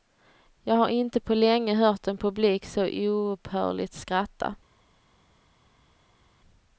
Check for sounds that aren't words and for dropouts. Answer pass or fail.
pass